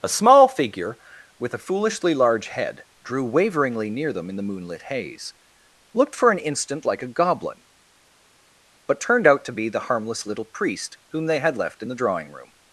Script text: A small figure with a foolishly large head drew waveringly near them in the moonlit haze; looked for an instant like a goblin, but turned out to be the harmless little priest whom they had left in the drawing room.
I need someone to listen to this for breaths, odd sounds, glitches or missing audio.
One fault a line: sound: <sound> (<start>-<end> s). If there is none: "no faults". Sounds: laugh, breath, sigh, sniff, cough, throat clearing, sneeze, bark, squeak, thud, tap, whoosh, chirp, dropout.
no faults